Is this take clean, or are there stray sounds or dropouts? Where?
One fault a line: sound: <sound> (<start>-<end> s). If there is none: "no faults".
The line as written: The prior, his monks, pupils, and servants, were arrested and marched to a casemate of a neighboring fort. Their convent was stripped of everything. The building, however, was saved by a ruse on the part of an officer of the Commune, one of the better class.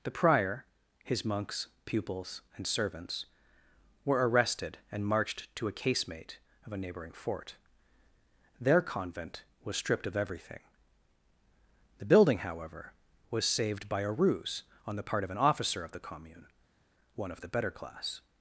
no faults